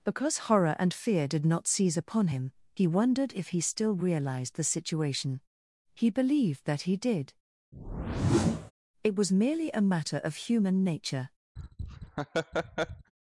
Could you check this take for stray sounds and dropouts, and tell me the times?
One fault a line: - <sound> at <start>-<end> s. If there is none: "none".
- whoosh at 7.7-8.7 s
- laugh at 11.6-13.1 s